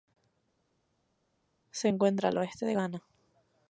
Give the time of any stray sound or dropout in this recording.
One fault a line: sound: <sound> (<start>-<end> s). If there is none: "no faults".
no faults